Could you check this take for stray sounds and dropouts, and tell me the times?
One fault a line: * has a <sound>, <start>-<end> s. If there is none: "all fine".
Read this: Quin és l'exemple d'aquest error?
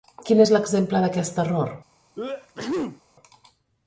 * has a sneeze, 2.2-3.0 s